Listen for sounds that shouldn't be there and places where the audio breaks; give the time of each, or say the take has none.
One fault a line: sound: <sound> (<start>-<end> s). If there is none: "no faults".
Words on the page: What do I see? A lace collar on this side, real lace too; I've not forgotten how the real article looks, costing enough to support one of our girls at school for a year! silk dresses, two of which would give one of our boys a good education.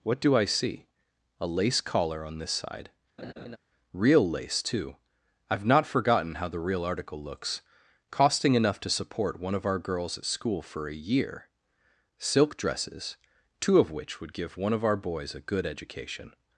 sound: laugh (3.2-3.6 s)